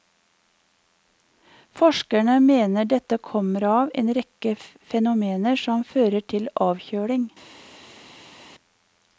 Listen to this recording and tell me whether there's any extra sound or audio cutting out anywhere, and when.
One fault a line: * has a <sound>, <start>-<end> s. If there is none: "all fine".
all fine